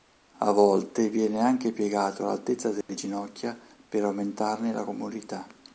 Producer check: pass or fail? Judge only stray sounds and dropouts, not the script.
fail